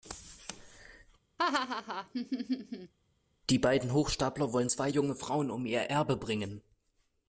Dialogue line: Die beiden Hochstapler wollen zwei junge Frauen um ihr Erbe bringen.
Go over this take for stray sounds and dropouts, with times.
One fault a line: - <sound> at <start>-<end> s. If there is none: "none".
- laugh at 1.4-2.9 s